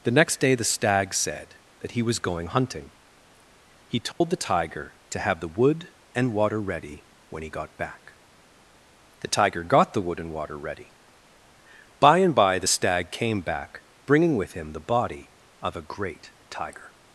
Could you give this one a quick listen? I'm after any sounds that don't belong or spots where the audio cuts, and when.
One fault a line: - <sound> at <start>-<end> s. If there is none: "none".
- dropout at 4.1-4.2 s